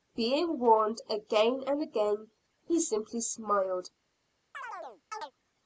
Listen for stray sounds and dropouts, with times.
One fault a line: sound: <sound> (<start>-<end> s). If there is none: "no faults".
sound: chirp (4.5-5.3 s)